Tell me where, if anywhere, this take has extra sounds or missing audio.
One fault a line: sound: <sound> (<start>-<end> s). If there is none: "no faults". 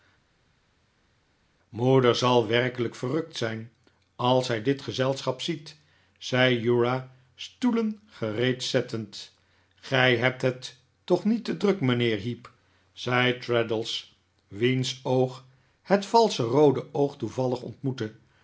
no faults